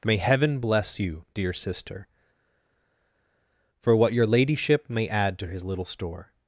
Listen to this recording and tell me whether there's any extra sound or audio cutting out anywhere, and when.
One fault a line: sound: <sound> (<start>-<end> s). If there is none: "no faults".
no faults